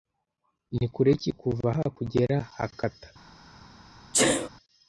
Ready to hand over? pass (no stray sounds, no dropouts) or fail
fail